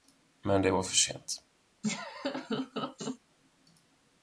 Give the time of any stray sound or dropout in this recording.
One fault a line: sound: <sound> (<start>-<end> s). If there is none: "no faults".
sound: laugh (1.8-3.2 s)